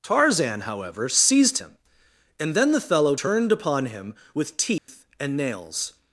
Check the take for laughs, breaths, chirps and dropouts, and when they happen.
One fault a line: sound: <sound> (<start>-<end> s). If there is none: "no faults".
sound: dropout (4.8-4.9 s)